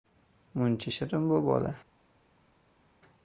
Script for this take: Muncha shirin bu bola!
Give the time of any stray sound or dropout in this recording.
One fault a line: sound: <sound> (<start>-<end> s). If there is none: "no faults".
no faults